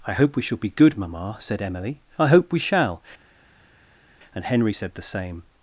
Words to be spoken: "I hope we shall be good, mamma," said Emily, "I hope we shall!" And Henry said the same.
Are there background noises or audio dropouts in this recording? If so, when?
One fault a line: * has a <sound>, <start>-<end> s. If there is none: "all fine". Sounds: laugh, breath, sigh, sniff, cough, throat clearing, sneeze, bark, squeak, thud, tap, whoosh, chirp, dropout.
all fine